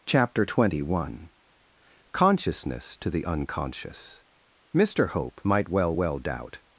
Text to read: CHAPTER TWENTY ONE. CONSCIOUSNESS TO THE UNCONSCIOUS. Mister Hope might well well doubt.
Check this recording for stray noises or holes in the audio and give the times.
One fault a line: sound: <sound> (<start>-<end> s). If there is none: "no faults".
no faults